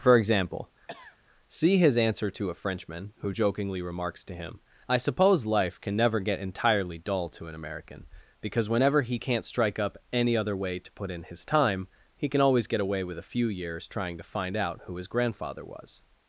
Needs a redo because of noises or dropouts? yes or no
yes